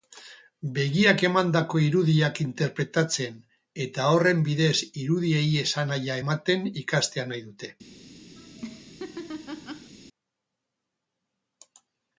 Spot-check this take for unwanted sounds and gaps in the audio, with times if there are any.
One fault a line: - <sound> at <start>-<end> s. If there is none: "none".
- laugh at 8.4-9.9 s